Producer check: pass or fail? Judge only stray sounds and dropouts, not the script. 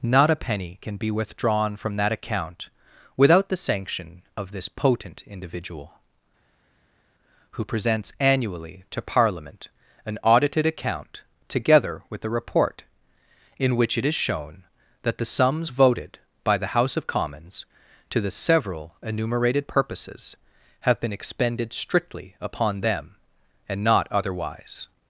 pass